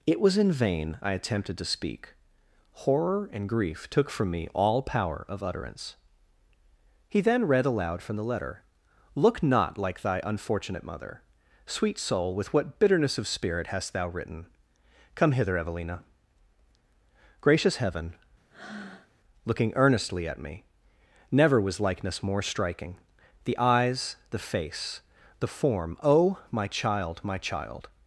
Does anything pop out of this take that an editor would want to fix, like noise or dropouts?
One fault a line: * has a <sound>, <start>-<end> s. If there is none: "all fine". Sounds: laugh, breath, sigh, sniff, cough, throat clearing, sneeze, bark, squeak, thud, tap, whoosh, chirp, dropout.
* has a breath, 18.5-19.1 s